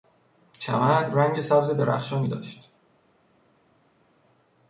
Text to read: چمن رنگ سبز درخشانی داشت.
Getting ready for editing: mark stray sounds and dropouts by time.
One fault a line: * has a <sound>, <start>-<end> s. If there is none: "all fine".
all fine